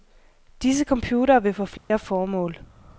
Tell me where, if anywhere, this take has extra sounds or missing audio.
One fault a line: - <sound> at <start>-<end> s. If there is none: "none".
- dropout at 1.8-1.9 s